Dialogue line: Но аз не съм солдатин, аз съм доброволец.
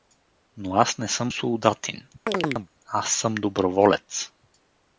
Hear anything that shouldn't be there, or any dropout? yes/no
yes